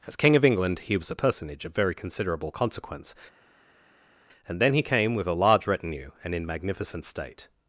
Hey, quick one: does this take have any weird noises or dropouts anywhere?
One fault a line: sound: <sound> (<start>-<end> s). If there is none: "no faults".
no faults